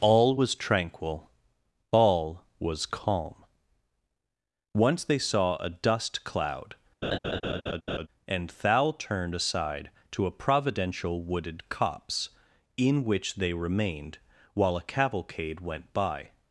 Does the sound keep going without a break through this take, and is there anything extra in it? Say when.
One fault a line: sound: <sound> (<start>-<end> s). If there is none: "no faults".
sound: laugh (7.0-8.1 s)